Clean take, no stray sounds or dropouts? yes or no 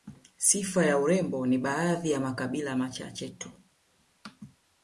yes